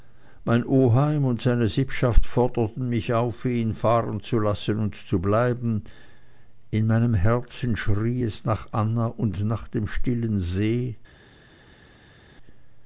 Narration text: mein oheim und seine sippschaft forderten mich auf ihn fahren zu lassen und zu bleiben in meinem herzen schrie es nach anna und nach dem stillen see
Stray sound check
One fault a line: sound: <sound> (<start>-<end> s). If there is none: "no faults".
no faults